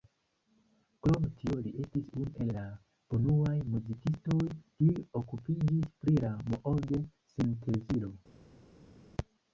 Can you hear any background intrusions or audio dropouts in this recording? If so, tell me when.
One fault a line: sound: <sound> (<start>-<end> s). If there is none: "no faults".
no faults